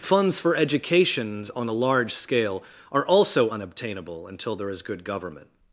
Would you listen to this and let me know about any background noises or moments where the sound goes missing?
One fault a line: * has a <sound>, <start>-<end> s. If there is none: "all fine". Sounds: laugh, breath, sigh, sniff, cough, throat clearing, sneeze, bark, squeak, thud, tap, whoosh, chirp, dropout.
all fine